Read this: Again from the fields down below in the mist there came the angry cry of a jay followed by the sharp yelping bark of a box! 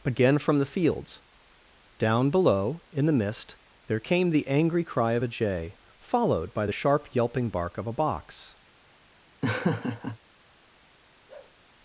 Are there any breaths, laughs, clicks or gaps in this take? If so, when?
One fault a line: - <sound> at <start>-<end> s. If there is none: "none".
- laugh at 9.4-10.2 s
- bark at 11.3-11.6 s